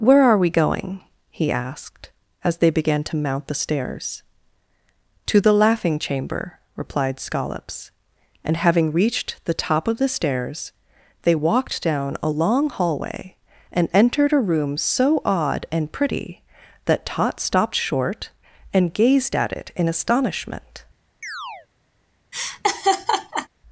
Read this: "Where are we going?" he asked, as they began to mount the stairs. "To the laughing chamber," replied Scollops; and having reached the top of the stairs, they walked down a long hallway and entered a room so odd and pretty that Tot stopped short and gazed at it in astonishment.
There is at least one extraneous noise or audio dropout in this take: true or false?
true